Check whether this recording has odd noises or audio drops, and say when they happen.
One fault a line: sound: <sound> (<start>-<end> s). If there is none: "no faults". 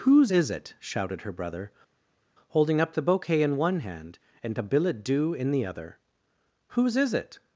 no faults